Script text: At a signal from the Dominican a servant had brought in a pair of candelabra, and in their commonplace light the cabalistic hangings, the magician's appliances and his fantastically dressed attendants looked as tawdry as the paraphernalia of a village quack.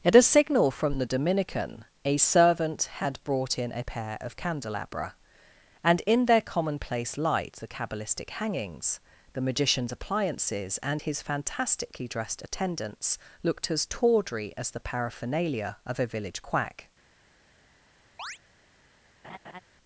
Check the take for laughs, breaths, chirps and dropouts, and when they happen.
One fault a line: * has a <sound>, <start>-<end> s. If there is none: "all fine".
* has a chirp, 18.2-18.4 s
* has a laugh, 19.2-19.6 s